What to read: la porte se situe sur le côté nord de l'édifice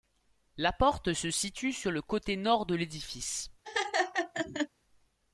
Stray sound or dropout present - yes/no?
yes